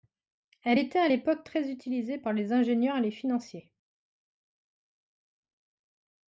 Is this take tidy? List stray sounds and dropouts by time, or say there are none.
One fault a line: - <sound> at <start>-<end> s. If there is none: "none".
none